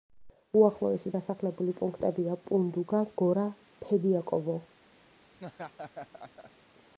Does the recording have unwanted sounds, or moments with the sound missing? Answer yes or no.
yes